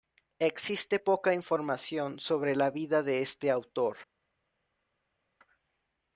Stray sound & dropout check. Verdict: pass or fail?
pass